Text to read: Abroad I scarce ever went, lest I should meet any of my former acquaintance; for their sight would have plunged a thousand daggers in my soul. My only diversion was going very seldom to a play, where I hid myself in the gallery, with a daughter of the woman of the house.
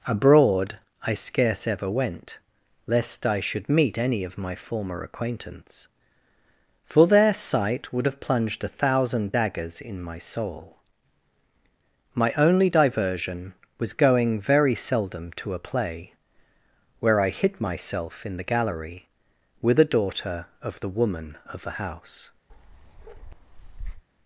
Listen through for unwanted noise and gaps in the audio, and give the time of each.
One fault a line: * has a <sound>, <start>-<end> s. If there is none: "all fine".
* has a bark, 22.5-24.0 s